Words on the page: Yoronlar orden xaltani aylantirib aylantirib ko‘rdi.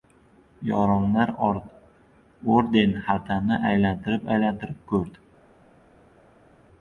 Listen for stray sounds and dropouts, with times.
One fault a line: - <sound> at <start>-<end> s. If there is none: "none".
none